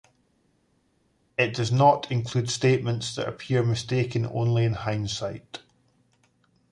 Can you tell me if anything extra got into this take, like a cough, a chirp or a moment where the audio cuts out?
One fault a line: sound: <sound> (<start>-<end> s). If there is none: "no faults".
no faults